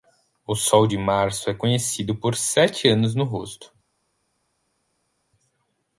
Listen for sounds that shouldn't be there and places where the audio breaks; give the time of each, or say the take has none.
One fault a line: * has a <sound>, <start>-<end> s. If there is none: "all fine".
all fine